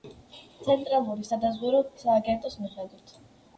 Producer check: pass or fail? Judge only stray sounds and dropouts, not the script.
pass